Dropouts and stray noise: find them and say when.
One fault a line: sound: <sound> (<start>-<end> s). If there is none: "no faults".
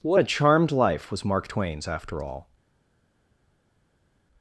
no faults